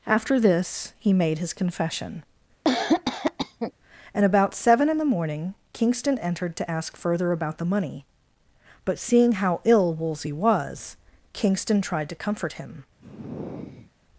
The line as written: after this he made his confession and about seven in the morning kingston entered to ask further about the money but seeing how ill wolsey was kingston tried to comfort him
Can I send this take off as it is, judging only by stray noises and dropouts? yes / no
no